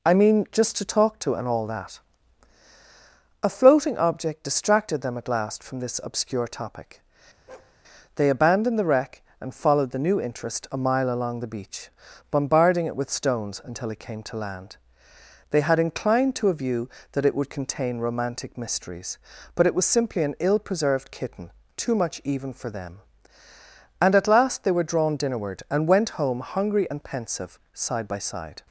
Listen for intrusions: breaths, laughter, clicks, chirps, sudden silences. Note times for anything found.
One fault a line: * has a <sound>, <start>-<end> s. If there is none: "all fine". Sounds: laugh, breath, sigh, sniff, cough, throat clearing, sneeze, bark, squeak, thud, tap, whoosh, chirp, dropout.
* has a bark, 7.5-7.8 s